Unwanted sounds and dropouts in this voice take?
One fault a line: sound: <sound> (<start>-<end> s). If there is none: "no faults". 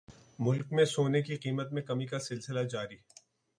no faults